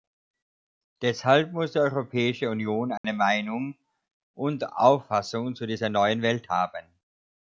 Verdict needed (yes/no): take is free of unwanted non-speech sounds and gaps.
no